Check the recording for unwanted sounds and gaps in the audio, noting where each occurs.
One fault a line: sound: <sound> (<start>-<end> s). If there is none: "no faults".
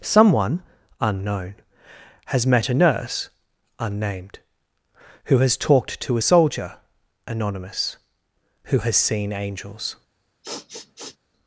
sound: sniff (10.4-11.2 s)